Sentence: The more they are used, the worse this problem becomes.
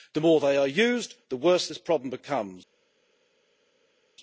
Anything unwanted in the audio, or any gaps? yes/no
no